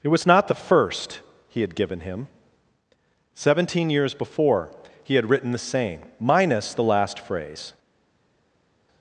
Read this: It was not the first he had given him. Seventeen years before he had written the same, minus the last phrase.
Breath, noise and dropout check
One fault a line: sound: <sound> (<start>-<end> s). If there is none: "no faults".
no faults